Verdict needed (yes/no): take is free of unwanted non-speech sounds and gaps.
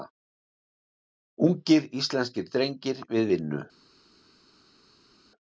yes